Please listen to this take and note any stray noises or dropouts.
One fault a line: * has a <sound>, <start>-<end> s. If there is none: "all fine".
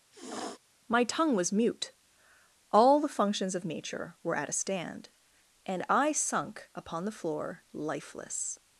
* has a sniff, 0.1-0.6 s